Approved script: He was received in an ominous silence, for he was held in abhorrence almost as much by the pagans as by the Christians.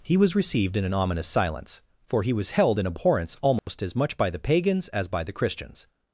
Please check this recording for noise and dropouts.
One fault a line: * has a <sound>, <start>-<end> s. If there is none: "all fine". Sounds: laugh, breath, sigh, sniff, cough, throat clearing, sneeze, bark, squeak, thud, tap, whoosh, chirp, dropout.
* has a dropout, 3.6-3.7 s